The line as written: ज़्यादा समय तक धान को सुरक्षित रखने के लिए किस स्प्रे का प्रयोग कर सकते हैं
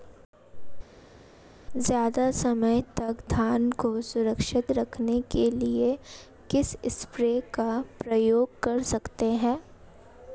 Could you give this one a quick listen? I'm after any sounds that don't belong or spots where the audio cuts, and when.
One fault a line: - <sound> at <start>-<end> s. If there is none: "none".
none